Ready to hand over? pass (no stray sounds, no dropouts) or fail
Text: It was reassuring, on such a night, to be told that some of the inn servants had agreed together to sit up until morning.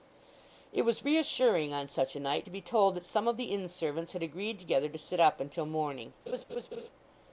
fail